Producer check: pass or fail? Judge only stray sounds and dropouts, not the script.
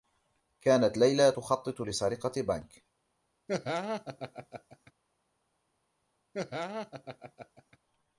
fail